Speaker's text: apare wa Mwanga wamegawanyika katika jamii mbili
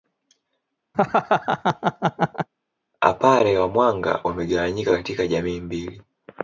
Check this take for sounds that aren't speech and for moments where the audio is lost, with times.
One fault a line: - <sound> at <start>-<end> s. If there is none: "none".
- laugh at 0.9-2.5 s